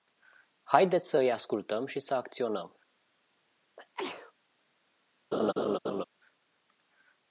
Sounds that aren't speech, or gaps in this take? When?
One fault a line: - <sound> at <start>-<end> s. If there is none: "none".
- sneeze at 3.8-4.3 s
- laugh at 5.3-6.0 s